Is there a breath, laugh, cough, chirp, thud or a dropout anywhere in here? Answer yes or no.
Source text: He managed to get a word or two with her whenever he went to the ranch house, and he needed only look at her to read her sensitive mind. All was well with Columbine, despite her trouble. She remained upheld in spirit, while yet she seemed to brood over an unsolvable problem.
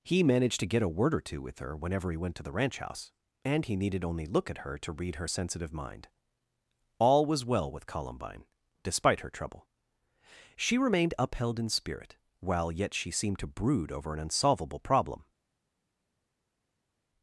no